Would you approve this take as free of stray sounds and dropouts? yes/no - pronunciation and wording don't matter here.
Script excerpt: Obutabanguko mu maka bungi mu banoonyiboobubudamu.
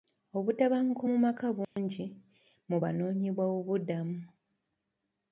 no